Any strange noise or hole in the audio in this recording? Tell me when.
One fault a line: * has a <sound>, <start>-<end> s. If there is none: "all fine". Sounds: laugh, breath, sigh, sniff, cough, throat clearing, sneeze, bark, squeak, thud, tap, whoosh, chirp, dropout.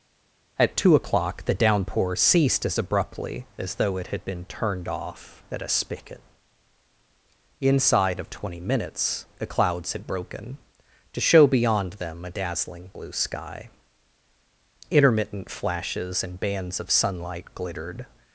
all fine